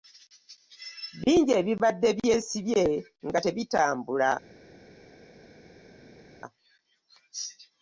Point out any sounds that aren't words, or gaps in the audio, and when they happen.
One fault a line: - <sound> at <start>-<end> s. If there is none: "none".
none